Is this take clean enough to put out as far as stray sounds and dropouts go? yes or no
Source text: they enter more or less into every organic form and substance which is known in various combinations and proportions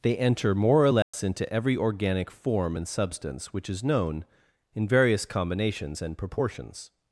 no